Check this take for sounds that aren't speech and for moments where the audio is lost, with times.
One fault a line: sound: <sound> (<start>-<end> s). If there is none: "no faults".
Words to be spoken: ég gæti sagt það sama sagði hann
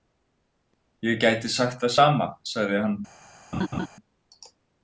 sound: laugh (3.5-3.9 s)